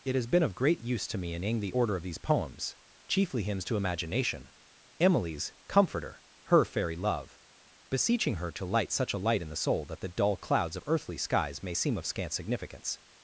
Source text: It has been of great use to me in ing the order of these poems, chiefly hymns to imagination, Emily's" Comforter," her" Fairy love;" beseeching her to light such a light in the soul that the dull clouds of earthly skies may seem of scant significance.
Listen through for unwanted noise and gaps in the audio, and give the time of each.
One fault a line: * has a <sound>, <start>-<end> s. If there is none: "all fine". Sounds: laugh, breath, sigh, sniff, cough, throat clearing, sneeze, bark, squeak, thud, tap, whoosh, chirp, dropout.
all fine